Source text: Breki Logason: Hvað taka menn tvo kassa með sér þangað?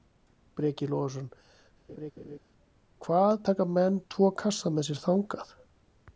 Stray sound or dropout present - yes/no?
yes